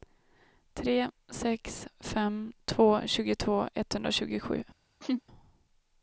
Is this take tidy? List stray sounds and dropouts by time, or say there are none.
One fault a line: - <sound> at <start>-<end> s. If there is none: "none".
- laugh at 5.0-5.2 s